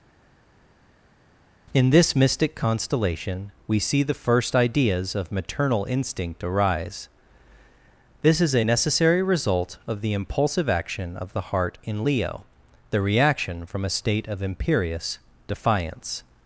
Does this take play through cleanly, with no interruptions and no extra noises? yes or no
yes